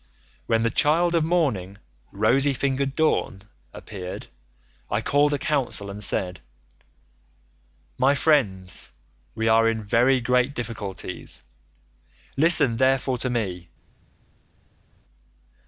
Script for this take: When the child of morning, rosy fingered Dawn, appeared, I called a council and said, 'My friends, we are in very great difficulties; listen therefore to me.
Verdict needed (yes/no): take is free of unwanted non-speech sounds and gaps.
yes